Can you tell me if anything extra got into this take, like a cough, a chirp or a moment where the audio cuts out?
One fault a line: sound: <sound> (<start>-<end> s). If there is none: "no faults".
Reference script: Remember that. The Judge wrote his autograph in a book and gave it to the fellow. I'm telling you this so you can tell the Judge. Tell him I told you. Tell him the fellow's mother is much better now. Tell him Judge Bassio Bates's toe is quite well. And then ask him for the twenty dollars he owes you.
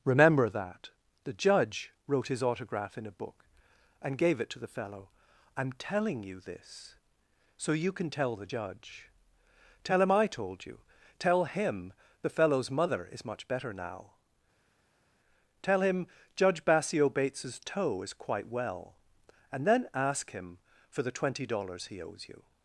no faults